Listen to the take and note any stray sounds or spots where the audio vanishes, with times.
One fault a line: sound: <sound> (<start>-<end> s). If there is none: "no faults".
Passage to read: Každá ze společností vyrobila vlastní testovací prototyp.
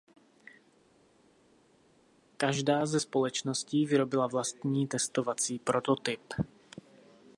no faults